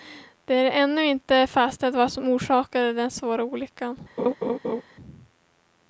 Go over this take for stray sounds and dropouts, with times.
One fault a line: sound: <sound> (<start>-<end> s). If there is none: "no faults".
sound: laugh (4.2-4.8 s)